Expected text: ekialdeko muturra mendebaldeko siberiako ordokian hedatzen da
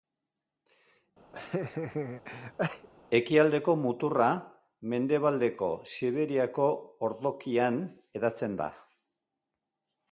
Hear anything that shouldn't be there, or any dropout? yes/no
yes